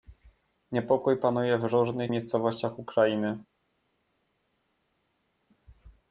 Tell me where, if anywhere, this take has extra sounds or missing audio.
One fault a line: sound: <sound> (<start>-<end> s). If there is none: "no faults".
no faults